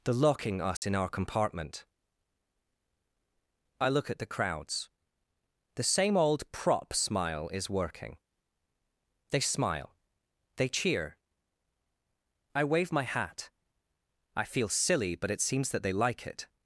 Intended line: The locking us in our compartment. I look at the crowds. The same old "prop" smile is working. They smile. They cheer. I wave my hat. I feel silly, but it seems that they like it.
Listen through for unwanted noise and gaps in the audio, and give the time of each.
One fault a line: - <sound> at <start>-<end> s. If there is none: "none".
- dropout at 0.8-0.8 s